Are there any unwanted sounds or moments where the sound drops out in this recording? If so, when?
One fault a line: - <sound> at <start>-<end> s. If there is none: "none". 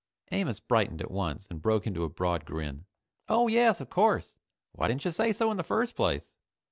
none